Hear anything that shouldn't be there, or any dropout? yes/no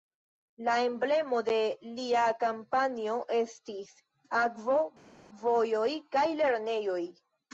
no